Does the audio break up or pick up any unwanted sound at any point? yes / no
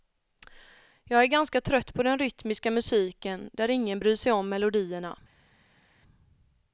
no